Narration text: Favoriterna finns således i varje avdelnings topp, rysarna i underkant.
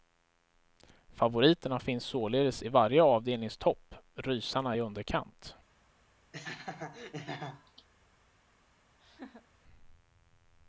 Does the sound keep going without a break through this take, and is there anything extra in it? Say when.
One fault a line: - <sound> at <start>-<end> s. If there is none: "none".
- laugh at 6.3-7.9 s
- laugh at 9.0-9.5 s